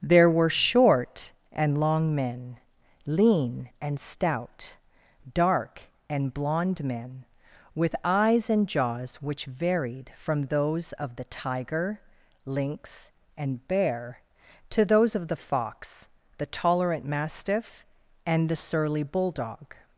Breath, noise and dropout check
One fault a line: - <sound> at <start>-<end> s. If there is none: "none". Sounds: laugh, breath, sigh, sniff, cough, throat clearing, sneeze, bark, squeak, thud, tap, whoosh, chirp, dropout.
none